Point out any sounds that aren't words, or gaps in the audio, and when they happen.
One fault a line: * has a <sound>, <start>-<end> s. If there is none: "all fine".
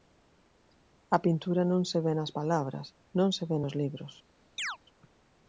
* has a chirp, 4.6-4.8 s